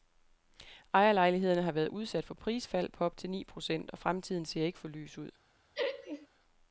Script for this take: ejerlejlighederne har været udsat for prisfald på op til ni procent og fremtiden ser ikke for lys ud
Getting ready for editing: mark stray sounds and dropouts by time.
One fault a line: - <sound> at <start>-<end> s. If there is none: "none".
- laugh at 5.7-6.3 s